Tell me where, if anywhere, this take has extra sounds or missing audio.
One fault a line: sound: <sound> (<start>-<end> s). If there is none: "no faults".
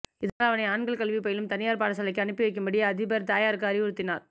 no faults